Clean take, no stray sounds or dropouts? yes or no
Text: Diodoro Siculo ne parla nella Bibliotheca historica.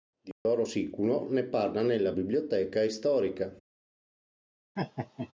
no